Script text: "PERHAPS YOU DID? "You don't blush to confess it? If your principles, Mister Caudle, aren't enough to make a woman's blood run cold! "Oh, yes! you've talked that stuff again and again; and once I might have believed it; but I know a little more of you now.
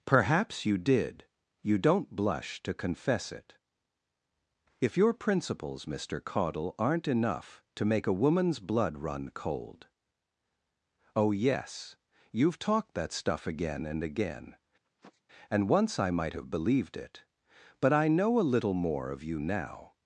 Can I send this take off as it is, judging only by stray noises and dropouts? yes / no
no